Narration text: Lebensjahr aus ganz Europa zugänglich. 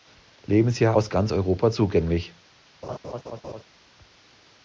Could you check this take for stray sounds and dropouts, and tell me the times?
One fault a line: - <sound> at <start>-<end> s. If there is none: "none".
- laugh at 2.8-3.6 s